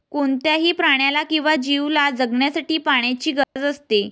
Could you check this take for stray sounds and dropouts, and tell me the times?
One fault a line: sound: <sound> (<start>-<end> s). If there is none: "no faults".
sound: dropout (3.4-3.6 s)